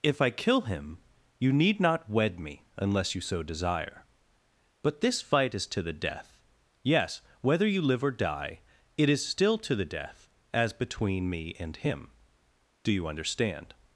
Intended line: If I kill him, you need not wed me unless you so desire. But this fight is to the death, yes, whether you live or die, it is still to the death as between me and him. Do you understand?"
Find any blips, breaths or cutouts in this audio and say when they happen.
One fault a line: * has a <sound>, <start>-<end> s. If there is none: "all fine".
all fine